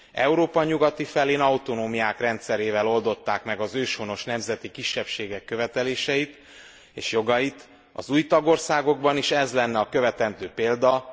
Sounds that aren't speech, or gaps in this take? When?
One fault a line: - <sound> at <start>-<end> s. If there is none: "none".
none